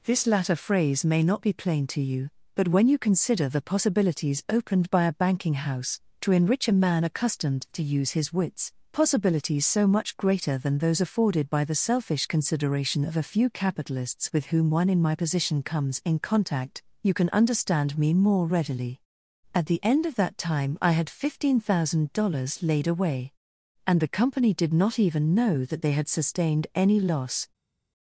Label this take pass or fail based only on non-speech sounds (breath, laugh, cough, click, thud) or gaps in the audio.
pass